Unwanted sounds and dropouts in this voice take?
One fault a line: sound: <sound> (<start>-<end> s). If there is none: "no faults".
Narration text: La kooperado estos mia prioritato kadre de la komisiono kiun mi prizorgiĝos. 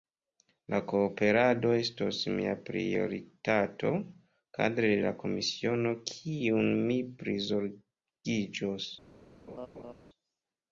sound: laugh (9.5-9.9 s)